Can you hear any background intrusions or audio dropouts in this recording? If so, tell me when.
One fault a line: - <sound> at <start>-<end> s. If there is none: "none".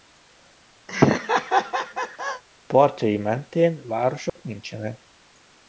- laugh at 0.9-2.4 s
- dropout at 4.3-4.4 s